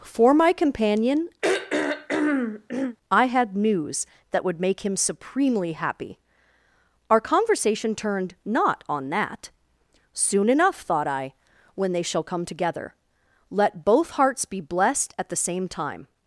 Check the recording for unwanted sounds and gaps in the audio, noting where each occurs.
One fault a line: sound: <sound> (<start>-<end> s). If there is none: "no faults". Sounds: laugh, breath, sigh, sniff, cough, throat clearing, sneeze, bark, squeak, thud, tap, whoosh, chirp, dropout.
sound: throat clearing (1.4-3.0 s)